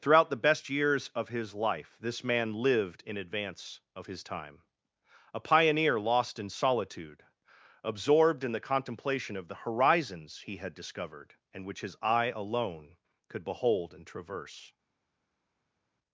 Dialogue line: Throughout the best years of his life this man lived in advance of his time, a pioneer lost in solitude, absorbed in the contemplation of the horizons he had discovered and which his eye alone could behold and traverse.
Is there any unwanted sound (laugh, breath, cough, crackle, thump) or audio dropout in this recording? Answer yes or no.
no